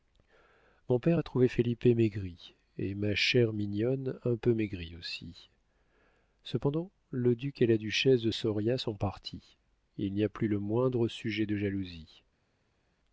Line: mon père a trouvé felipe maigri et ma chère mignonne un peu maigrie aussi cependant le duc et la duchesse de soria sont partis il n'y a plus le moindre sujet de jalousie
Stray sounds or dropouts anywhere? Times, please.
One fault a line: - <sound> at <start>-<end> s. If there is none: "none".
none